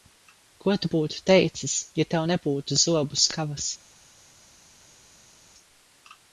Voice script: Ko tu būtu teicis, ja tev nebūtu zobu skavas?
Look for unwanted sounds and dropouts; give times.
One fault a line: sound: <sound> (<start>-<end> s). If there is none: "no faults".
no faults